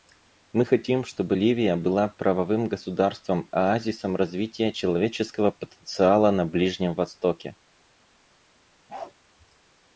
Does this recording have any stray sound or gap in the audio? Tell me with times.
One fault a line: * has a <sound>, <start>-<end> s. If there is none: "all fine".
* has a bark, 8.9-9.1 s